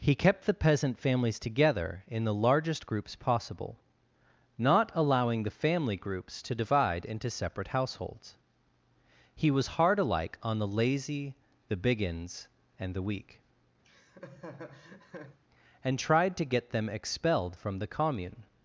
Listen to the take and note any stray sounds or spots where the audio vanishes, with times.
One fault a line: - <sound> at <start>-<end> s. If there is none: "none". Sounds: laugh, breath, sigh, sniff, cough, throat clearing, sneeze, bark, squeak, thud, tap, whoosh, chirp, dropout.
- laugh at 13.8-15.4 s